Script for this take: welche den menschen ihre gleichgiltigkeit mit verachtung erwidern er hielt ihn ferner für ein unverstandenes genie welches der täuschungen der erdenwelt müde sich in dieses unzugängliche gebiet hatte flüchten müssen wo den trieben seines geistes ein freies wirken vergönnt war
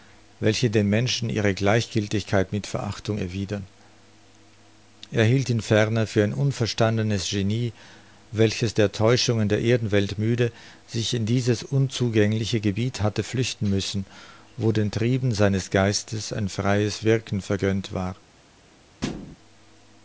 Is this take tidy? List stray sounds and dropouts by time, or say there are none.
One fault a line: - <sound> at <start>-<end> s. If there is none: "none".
- thud at 19.0-19.4 s